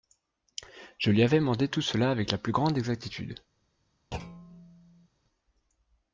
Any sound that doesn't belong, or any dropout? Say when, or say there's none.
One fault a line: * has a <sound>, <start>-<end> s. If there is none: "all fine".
* has a thud, 4.1-5.1 s